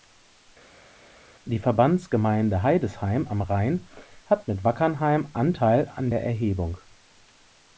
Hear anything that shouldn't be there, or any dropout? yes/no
no